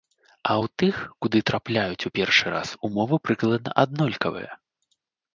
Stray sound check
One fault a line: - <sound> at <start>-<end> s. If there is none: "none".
none